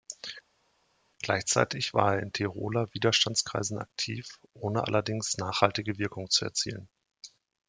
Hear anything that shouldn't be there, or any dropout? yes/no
no